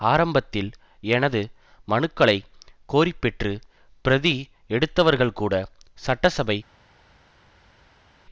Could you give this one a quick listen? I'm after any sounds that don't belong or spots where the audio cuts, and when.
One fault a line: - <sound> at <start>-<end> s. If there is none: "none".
none